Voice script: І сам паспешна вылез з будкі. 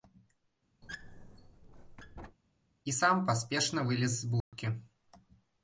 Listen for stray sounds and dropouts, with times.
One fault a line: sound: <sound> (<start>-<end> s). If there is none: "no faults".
sound: squeak (0.8-2.4 s)
sound: dropout (4.4-4.5 s)